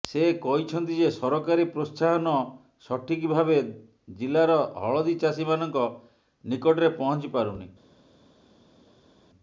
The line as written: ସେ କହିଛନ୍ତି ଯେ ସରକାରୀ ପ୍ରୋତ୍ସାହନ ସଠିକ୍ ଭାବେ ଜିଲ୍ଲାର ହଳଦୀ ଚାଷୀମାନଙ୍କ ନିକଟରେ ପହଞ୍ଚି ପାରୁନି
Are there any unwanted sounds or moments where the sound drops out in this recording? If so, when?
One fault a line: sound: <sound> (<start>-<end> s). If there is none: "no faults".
no faults